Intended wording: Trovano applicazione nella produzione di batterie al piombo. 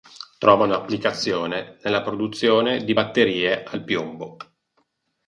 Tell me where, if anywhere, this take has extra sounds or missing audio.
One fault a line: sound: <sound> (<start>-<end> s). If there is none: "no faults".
no faults